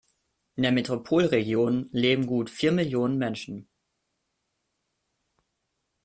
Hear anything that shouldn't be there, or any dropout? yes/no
no